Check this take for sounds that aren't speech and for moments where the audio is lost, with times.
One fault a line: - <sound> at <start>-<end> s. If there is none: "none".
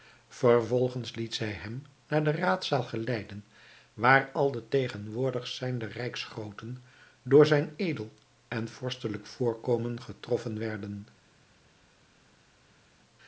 none